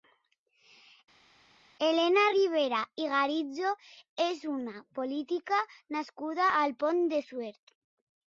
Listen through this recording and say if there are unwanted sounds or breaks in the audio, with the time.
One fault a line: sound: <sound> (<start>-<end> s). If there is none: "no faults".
no faults